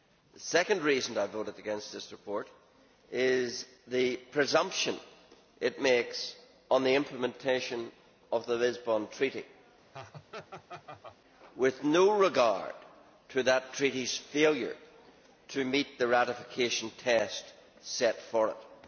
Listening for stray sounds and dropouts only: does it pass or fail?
fail